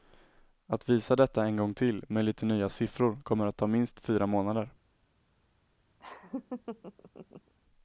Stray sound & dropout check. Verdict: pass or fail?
fail